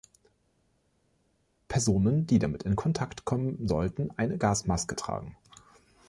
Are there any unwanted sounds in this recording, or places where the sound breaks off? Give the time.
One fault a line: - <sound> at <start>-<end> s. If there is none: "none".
none